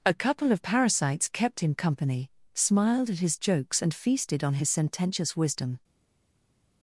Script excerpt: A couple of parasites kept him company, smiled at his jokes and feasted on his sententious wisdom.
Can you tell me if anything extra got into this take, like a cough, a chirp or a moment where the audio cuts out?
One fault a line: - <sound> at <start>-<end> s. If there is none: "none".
none